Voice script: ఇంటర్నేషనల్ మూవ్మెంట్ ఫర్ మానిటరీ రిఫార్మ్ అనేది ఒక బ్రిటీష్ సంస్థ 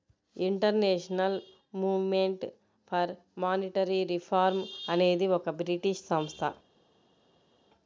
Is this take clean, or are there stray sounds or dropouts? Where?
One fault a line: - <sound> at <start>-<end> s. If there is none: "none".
none